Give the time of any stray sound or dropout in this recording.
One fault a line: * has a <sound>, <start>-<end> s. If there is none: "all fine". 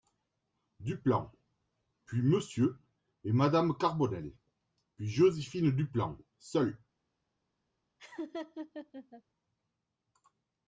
* has a laugh, 8.0-9.2 s